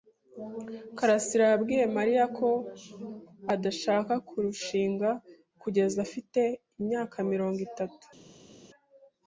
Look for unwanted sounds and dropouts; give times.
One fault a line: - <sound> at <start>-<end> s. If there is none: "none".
none